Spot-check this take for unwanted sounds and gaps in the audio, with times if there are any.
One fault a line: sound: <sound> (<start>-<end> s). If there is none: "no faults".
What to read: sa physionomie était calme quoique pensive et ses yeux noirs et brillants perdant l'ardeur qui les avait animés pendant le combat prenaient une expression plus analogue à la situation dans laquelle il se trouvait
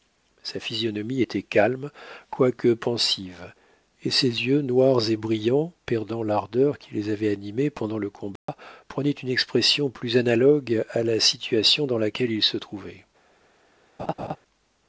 sound: dropout (8.4-8.5 s)
sound: laugh (14.0-14.4 s)